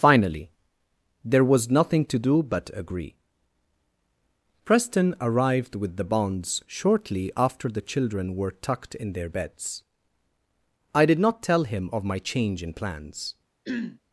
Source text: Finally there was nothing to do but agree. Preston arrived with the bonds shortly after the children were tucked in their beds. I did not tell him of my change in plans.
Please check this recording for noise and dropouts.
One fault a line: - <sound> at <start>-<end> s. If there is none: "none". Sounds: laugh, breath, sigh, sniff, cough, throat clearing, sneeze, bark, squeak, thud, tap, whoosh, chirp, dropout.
- throat clearing at 13.6-14.0 s